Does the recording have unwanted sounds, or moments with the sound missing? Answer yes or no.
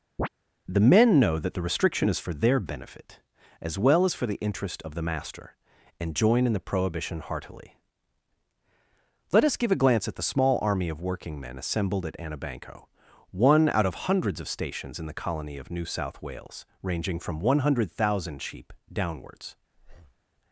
yes